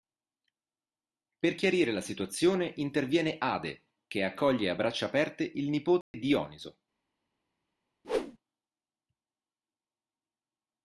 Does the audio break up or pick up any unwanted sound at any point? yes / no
yes